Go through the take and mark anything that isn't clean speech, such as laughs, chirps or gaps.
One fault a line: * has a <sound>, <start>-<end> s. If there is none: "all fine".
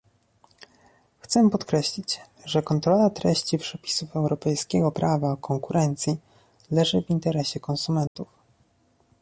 * has a dropout, 8.1-8.2 s